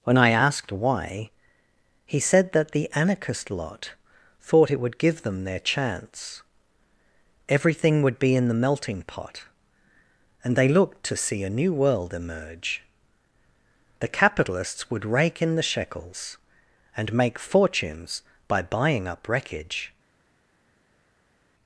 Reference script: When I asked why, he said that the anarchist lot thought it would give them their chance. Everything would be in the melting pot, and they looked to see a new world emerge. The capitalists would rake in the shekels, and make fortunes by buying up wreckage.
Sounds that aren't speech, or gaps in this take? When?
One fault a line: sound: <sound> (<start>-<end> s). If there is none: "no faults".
no faults